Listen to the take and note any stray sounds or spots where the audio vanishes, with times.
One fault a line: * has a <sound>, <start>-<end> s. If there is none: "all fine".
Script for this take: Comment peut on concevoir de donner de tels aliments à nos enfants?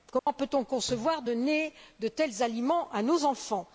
* has a dropout, 0.2-0.3 s